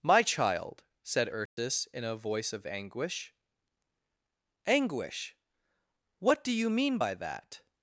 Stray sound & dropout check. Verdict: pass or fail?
fail